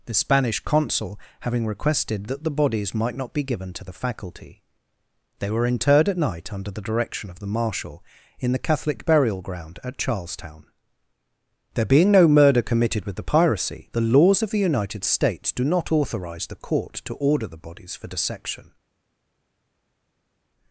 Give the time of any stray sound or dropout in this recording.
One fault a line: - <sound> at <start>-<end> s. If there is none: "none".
none